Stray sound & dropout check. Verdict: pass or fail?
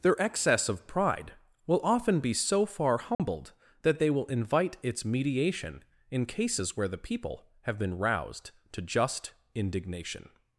fail